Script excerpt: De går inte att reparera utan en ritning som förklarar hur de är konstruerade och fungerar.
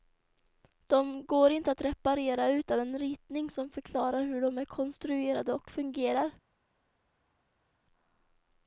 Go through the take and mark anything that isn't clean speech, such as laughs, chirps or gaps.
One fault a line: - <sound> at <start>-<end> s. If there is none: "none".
none